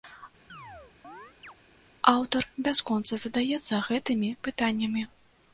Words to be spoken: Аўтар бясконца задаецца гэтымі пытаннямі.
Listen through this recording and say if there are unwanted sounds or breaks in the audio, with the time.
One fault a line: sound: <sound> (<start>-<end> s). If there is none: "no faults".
sound: chirp (0.5-1.5 s)